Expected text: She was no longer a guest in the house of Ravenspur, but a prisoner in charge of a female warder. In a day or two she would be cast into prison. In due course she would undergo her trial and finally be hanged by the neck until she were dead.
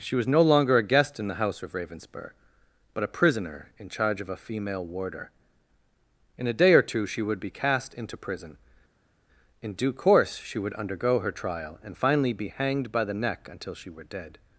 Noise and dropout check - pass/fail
pass